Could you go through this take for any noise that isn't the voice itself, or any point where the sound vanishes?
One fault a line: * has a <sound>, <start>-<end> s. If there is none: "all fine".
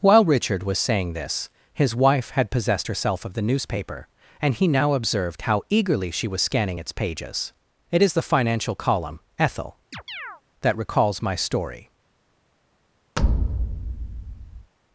* has a chirp, 9.9-10.4 s
* has a thud, 13.2-14.7 s